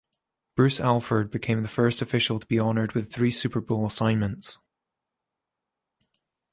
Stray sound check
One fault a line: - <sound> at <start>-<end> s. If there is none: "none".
none